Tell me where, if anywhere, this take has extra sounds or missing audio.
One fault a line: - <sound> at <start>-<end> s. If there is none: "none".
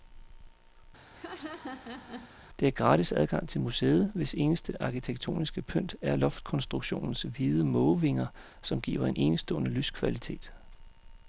- laugh at 1.1-2.4 s